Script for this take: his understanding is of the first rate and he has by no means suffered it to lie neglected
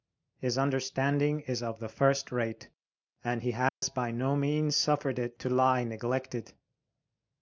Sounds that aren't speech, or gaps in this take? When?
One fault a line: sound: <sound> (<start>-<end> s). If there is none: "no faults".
sound: dropout (3.7-3.8 s)